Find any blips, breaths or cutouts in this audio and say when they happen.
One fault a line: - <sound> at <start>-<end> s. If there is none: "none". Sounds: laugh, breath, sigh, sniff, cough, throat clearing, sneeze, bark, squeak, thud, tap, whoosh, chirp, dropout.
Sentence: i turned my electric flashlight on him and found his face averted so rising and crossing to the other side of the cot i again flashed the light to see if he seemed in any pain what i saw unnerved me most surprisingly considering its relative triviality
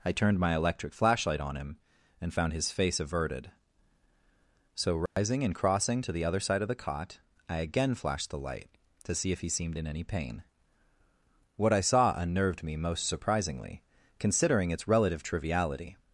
- dropout at 5.1-5.2 s